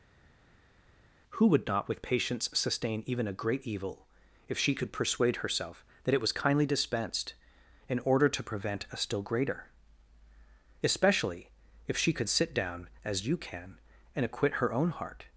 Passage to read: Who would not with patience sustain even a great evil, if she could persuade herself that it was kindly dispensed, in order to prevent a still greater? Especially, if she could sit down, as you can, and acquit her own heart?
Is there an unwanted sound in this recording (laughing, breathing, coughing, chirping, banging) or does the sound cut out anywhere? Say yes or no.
no